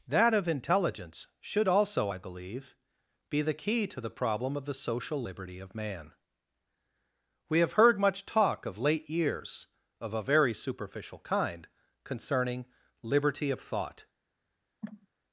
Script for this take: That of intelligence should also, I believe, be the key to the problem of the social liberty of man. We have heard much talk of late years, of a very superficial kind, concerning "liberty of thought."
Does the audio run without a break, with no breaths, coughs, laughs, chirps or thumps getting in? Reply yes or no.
no